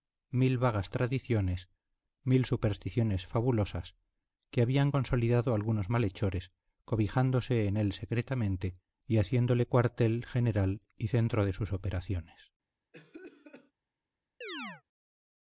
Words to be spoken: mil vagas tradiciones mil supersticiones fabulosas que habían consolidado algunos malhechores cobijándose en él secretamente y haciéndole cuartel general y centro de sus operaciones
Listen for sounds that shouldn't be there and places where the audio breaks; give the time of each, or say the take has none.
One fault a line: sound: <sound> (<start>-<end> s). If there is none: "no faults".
sound: cough (12.9-13.7 s)
sound: chirp (14.4-14.8 s)